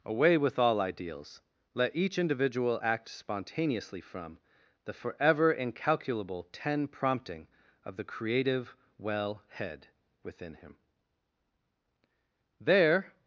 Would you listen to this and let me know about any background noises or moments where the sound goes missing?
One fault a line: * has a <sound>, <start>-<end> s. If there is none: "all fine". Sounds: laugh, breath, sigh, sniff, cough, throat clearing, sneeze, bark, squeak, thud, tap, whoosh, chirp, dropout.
all fine